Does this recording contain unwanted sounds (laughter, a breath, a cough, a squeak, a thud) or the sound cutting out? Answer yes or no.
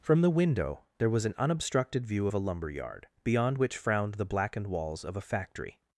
no